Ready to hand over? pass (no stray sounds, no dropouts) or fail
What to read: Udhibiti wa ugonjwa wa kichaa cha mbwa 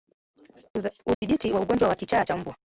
fail